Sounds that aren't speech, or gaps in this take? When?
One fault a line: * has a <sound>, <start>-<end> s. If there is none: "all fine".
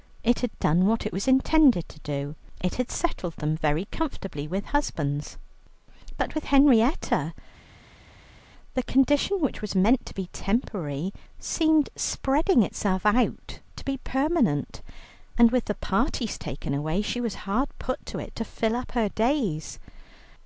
all fine